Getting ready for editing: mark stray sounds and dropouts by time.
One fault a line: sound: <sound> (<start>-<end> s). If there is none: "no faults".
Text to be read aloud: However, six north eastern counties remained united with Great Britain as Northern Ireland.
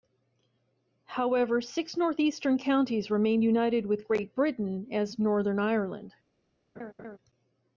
sound: laugh (6.8-7.2 s)